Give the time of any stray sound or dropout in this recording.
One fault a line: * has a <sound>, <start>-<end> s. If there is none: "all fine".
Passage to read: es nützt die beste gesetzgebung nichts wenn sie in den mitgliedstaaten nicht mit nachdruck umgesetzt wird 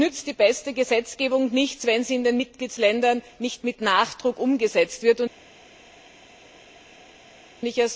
all fine